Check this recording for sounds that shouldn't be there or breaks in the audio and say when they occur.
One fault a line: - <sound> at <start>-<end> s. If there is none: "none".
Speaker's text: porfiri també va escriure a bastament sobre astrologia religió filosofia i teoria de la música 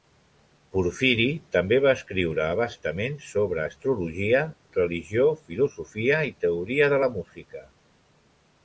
none